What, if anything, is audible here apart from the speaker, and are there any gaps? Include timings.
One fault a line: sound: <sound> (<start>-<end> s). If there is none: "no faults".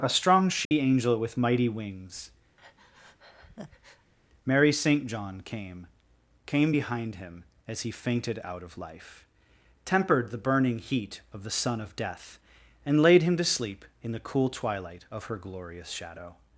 sound: dropout (0.6-0.7 s)
sound: breath (2.6-4.1 s)